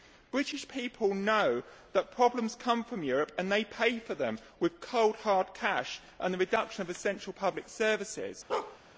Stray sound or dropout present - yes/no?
yes